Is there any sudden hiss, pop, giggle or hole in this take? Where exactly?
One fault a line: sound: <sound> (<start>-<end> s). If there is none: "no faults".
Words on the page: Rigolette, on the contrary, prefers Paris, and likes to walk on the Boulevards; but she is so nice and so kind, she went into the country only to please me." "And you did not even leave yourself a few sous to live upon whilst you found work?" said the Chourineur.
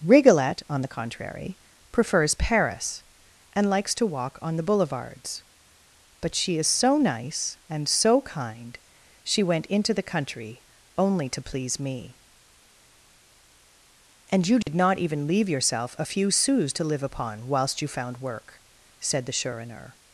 sound: dropout (14.6-14.7 s)